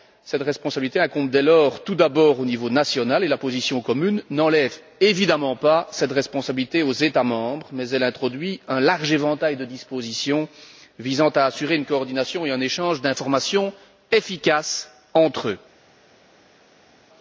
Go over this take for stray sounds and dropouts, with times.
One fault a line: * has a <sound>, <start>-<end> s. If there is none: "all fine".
all fine